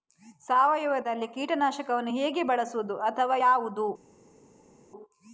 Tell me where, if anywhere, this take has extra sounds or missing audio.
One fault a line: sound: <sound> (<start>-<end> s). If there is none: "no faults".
no faults